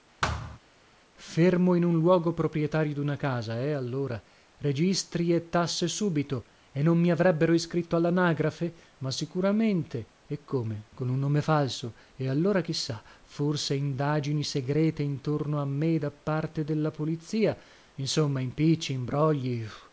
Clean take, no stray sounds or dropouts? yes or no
no